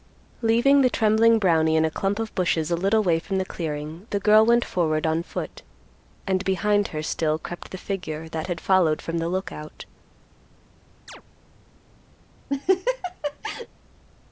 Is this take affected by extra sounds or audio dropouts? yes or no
yes